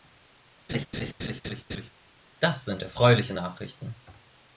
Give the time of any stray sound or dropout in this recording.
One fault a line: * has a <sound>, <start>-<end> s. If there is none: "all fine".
* has a laugh, 0.7-1.9 s